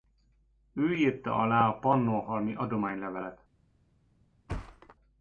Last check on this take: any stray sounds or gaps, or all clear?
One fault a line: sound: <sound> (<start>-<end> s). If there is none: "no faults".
sound: thud (4.5-5.0 s)